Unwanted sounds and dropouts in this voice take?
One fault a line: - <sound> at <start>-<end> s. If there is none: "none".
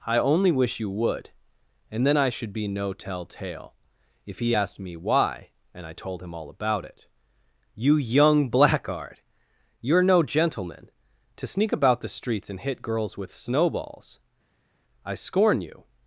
none